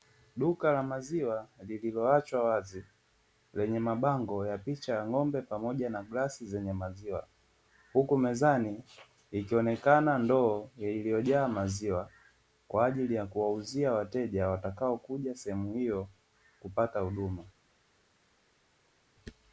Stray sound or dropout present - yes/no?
no